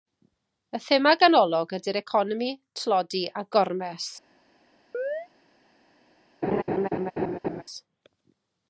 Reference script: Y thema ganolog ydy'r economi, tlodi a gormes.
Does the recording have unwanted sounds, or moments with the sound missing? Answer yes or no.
yes